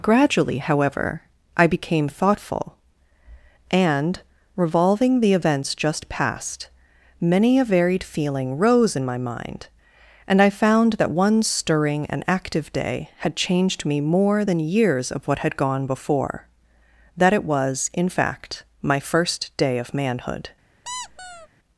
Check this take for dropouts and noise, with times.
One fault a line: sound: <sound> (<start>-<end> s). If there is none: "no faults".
sound: squeak (20.8-21.5 s)